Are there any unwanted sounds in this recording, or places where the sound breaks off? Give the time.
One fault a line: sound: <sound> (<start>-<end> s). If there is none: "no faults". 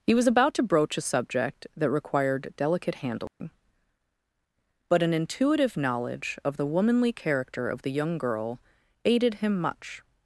sound: dropout (3.3-3.4 s)